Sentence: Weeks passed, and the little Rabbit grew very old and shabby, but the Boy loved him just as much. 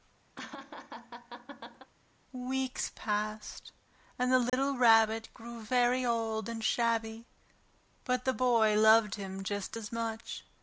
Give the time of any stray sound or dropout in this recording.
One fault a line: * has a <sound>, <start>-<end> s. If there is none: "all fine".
* has a laugh, 0.4-1.9 s
* has a dropout, 4.5-4.5 s